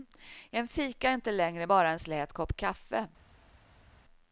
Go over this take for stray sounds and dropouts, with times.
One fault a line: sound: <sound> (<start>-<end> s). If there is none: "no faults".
no faults